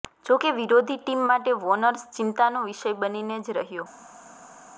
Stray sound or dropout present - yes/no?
no